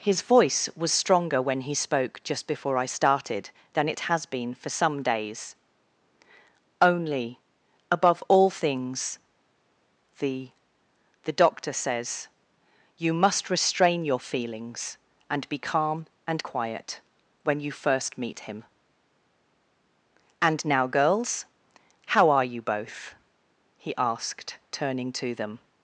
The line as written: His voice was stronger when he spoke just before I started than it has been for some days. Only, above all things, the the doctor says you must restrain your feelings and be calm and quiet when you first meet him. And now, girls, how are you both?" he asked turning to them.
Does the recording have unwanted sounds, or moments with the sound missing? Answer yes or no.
no